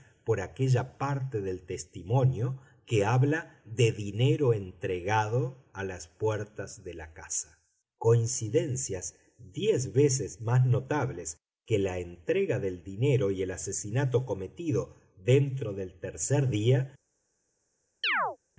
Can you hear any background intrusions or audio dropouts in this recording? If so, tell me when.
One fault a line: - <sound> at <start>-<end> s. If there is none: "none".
- chirp at 18.0-18.4 s